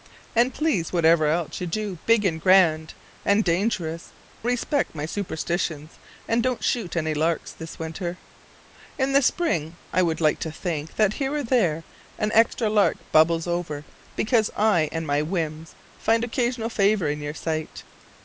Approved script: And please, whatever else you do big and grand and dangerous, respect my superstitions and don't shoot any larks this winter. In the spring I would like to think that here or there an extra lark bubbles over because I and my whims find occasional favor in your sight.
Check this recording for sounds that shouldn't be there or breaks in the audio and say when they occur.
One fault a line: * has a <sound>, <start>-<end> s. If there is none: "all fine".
all fine